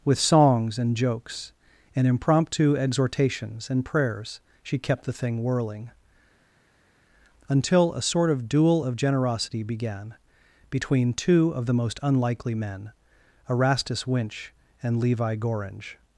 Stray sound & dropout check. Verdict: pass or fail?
pass